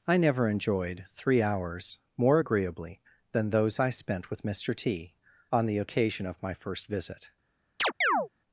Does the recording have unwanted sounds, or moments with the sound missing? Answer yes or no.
yes